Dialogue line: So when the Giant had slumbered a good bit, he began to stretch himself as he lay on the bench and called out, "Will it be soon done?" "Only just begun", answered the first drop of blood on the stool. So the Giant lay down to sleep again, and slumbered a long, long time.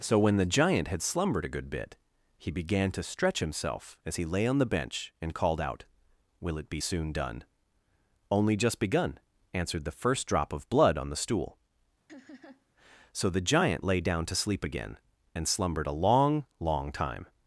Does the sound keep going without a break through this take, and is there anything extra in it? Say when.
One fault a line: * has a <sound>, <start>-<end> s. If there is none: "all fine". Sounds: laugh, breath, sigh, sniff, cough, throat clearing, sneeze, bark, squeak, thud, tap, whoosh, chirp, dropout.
* has a laugh, 12.1-12.7 s